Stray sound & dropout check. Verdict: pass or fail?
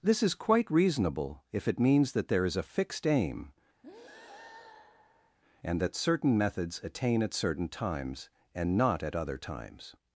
fail